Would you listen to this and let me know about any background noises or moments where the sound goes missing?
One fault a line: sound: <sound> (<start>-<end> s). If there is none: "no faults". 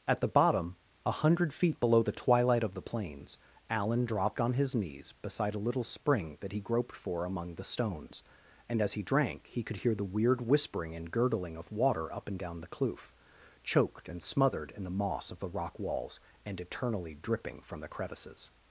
no faults